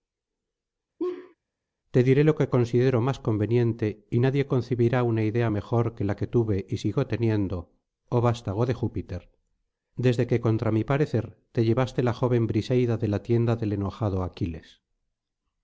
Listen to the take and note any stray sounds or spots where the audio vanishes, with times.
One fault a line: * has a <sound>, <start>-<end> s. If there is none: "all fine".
* has a laugh, 1.0-1.4 s